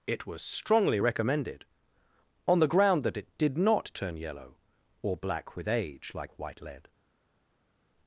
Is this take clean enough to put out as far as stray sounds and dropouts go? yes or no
yes